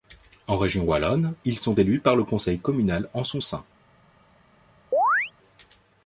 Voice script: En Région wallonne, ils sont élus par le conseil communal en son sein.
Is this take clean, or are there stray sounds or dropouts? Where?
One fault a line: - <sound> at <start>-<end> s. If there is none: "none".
- chirp at 4.9-5.3 s